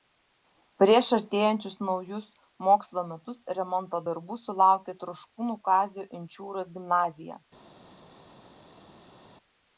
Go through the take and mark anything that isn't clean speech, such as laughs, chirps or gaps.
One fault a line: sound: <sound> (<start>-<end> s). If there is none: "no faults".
no faults